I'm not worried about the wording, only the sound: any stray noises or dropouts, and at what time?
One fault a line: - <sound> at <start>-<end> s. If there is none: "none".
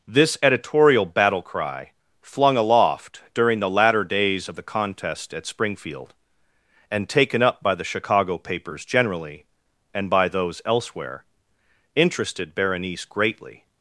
none